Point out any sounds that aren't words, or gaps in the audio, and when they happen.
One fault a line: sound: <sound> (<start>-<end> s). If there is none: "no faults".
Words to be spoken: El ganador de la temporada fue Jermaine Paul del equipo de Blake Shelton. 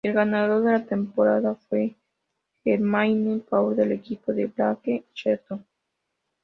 no faults